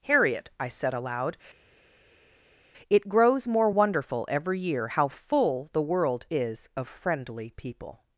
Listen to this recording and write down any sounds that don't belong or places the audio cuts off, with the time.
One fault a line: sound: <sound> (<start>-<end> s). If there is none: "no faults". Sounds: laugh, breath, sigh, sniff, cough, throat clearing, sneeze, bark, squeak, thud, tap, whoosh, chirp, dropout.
no faults